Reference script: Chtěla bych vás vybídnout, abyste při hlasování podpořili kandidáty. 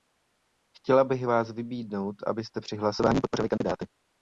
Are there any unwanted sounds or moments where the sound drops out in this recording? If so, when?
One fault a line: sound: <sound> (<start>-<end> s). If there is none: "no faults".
sound: dropout (3.6-3.6 s)